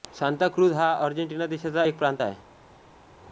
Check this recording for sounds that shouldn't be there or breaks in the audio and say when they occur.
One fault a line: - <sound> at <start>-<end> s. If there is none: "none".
none